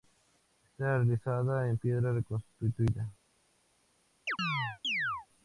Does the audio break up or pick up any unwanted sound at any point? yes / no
yes